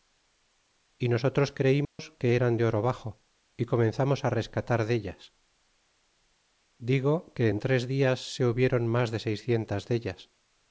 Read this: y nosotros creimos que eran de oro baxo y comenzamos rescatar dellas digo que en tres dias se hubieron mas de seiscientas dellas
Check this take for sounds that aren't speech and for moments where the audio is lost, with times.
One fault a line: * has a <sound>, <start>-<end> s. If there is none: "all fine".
* has a dropout, 1.8-2.0 s